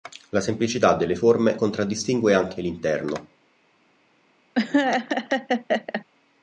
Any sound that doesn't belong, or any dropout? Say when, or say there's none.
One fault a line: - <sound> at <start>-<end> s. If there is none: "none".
- laugh at 4.5-6.0 s